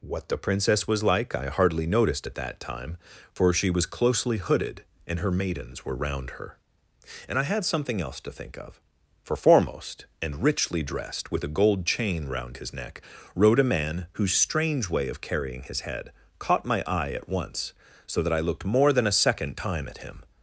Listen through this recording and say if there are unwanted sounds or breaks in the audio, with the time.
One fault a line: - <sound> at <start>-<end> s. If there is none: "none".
none